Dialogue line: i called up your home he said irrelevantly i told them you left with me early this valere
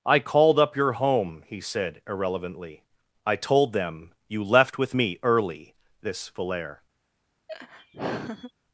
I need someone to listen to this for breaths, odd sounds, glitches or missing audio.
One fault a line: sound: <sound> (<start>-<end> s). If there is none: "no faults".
sound: laugh (7.5-8.5 s)